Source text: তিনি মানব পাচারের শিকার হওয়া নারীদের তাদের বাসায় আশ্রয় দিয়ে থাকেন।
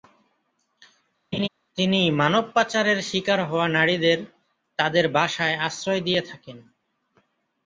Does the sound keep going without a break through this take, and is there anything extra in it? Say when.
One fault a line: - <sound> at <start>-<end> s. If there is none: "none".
- laugh at 1.3-1.5 s